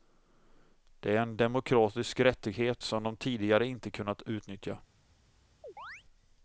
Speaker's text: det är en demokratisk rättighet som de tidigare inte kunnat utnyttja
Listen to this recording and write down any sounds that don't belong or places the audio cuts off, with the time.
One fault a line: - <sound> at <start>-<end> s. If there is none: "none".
- chirp at 5.6-6.0 s